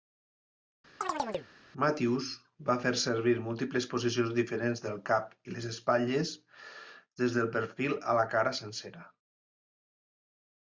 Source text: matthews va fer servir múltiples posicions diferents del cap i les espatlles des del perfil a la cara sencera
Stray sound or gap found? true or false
true